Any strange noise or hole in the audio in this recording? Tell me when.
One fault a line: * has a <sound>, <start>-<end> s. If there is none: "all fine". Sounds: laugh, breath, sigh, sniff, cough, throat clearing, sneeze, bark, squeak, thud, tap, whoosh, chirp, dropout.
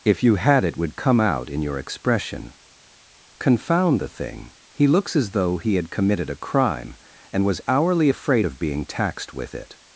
all fine